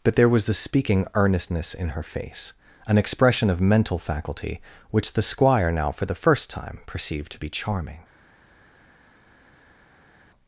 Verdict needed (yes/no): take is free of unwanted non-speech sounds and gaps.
yes